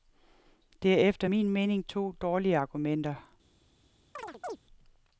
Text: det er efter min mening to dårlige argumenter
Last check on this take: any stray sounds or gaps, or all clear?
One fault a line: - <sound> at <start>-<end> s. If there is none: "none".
- chirp at 4.2-4.6 s